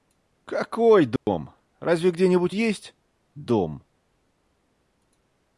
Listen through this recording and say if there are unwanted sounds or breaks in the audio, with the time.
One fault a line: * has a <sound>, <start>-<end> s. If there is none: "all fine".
* has a dropout, 1.2-1.3 s